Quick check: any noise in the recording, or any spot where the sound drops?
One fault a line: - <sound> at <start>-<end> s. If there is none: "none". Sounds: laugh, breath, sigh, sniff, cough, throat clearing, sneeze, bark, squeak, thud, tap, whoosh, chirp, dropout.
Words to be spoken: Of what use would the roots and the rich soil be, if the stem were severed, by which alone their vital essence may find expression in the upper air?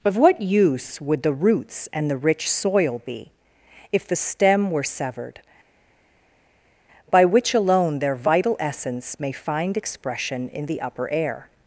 none